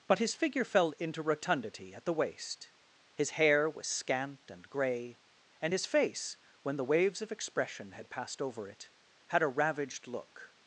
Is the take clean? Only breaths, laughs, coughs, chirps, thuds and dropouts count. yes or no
yes